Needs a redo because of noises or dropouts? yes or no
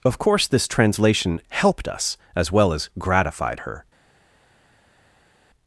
no